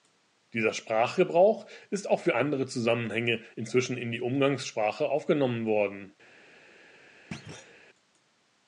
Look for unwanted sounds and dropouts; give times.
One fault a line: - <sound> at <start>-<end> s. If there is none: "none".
- thud at 7.3-7.8 s